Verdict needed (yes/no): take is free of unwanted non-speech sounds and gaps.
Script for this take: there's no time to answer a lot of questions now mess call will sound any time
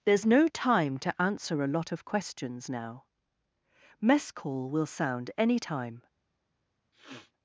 no